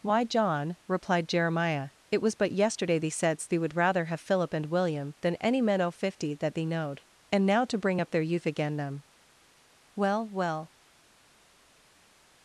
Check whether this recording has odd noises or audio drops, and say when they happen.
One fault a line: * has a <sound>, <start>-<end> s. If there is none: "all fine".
all fine